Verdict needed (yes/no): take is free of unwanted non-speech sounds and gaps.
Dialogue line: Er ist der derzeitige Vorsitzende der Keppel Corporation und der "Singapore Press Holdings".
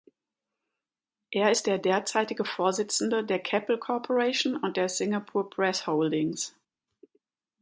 yes